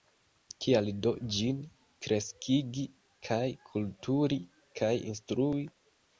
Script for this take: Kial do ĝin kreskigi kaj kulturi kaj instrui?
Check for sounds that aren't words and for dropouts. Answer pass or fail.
pass